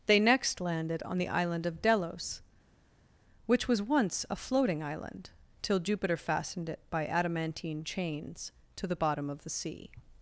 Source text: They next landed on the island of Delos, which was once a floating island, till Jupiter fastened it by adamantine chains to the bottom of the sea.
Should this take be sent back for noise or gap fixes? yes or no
no